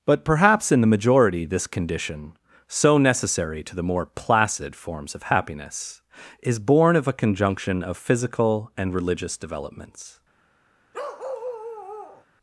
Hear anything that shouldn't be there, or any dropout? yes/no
yes